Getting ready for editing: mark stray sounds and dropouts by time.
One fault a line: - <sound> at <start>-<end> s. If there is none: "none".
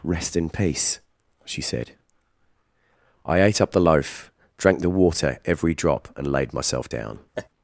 - laugh at 7.3-7.5 s